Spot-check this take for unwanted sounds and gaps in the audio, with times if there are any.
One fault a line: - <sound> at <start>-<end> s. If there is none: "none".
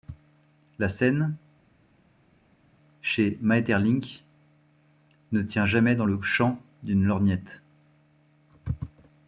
none